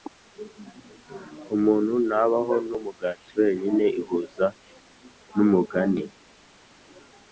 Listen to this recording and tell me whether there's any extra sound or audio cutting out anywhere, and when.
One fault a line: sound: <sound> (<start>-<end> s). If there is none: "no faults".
no faults